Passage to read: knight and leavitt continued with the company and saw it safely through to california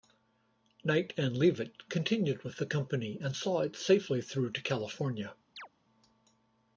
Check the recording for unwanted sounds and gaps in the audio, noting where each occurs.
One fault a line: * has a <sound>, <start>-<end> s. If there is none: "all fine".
* has a chirp, 5.6-5.7 s